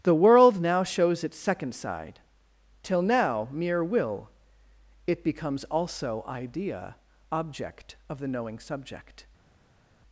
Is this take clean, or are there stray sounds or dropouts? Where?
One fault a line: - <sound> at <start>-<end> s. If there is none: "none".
none